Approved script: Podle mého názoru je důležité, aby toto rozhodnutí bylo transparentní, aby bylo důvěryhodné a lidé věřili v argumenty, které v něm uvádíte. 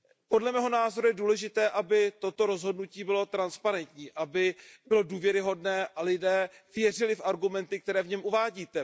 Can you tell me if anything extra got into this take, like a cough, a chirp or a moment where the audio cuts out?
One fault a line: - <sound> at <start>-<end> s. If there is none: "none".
none